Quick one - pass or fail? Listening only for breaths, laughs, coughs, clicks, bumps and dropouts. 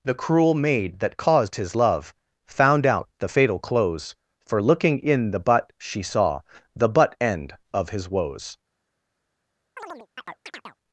fail